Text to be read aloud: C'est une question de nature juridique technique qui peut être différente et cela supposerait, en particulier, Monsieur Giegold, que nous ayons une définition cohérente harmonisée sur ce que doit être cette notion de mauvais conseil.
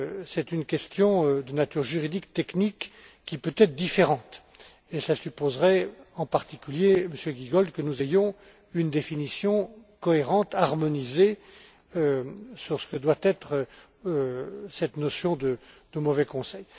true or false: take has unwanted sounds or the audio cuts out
false